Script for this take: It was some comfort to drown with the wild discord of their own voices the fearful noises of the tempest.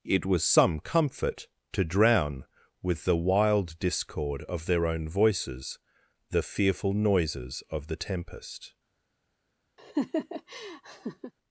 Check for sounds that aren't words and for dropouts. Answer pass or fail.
fail